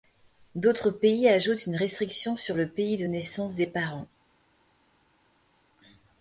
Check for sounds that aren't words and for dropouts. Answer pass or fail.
pass